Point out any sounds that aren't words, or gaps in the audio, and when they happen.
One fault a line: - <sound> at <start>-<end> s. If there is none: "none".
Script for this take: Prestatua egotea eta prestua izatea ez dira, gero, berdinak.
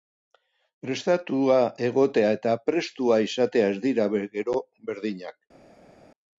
none